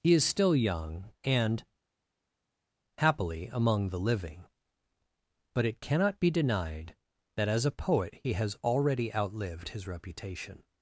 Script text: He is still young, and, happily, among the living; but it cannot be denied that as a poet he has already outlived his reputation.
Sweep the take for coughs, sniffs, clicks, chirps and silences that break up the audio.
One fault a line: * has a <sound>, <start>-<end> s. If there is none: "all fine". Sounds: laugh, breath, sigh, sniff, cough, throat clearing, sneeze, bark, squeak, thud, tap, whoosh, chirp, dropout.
all fine